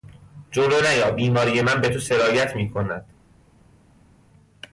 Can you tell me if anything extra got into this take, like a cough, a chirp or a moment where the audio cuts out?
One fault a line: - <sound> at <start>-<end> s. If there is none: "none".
none